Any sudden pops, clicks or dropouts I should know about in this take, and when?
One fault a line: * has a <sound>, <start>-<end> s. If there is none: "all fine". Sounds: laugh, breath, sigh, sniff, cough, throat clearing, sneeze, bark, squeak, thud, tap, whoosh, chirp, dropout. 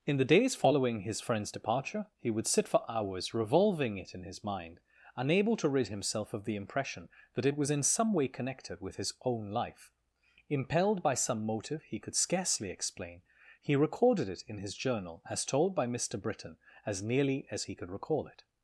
all fine